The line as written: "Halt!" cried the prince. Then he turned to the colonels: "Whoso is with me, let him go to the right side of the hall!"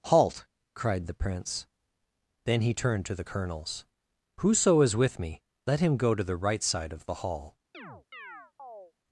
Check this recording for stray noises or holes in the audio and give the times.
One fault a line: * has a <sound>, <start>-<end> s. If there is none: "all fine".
* has a chirp, 7.7-8.9 s